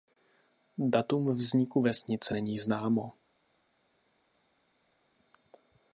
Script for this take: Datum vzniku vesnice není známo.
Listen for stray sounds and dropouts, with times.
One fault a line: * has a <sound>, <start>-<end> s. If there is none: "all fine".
all fine